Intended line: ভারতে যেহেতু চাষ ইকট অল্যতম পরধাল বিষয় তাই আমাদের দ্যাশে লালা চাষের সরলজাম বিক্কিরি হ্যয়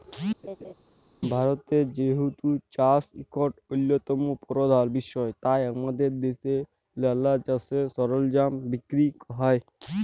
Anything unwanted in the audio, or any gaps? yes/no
yes